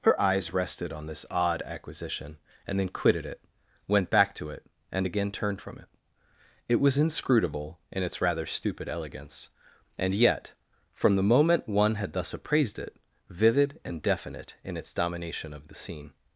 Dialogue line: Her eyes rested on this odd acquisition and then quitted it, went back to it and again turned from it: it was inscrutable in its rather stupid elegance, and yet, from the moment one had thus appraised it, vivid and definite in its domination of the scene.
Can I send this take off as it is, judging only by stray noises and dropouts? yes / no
yes